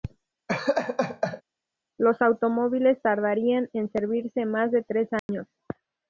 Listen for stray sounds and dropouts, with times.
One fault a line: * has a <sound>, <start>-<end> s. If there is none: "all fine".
* has a laugh, 0.5-1.4 s
* has a dropout, 5.2-5.3 s